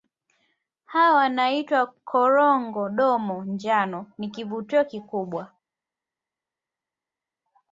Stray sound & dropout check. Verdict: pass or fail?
pass